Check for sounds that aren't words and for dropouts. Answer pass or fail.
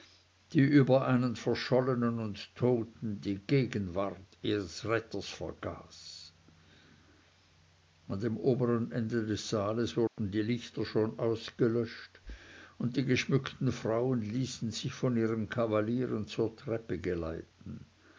fail